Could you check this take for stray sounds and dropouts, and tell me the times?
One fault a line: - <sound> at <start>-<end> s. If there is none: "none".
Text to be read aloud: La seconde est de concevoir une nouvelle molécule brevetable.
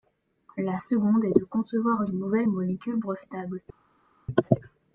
none